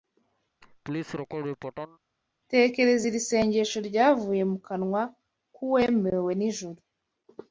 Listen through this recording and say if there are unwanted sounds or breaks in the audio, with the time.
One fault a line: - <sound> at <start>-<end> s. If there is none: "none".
- laugh at 0.6-2.0 s